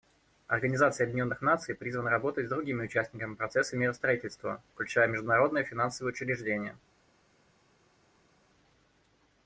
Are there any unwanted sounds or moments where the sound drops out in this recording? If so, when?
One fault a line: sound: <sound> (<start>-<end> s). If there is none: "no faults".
no faults